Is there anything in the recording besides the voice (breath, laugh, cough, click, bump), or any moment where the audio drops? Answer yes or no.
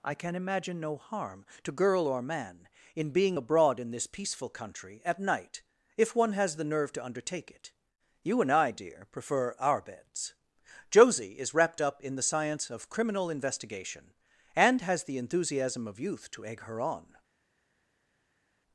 no